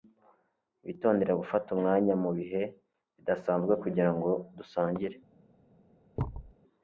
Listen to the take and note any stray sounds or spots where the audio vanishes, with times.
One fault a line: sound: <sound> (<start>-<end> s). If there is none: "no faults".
sound: thud (6.2-6.5 s)